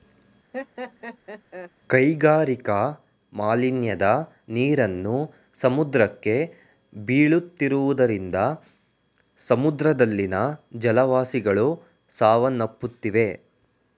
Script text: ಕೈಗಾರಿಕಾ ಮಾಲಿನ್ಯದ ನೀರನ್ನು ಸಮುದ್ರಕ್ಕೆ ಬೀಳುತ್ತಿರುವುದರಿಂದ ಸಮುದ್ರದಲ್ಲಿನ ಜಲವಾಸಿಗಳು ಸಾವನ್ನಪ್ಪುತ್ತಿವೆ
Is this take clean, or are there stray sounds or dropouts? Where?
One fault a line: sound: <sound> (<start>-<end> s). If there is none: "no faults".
sound: laugh (0.5-1.7 s)